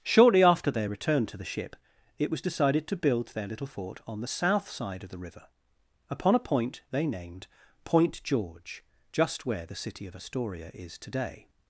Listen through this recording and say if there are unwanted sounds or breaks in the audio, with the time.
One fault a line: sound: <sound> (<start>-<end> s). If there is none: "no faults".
no faults